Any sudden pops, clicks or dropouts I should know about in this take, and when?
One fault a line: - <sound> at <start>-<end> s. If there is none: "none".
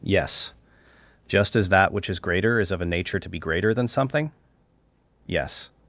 none